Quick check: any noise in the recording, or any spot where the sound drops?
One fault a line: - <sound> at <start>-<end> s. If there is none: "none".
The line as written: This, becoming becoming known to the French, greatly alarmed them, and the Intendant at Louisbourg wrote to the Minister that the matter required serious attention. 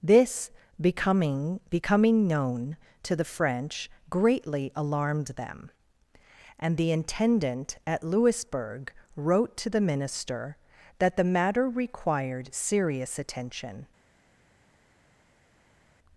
none